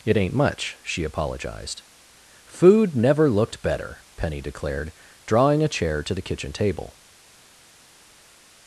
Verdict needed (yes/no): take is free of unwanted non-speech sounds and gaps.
yes